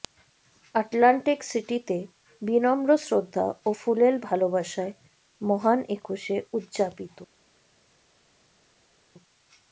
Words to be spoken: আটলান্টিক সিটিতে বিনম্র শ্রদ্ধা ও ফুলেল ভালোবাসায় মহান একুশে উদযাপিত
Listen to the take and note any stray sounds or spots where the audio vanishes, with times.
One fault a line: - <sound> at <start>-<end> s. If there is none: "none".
none